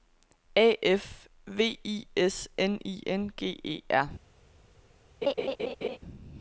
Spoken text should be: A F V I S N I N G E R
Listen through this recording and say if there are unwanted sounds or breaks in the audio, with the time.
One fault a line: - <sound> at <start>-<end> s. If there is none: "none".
- laugh at 5.2-6.0 s